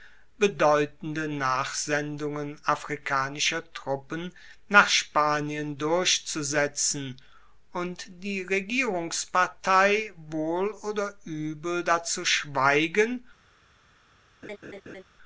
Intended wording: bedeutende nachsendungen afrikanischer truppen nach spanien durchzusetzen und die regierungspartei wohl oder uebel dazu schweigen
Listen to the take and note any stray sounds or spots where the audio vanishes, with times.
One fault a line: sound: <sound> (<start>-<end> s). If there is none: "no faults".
sound: laugh (14.4-15.0 s)